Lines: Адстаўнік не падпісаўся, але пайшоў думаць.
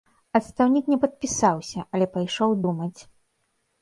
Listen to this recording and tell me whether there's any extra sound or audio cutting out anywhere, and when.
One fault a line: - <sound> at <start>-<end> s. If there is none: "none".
none